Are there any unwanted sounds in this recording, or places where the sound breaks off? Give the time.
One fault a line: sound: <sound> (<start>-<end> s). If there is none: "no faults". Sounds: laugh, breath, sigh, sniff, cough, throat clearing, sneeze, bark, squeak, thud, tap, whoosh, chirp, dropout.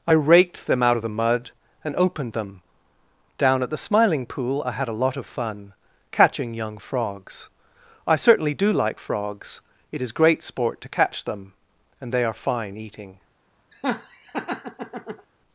sound: laugh (13.7-15.3 s)